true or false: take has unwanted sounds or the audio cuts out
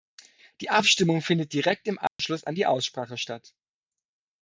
true